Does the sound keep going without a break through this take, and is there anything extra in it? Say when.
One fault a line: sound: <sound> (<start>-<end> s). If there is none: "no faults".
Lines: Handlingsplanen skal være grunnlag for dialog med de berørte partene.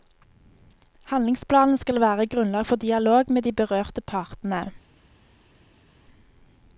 no faults